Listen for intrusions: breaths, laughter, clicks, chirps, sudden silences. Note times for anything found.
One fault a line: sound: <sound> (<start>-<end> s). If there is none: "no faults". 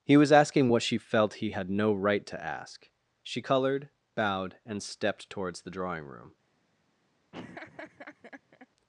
sound: laugh (7.3-8.7 s)